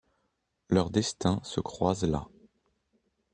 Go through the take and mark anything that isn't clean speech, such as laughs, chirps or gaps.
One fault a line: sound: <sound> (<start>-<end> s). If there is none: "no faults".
no faults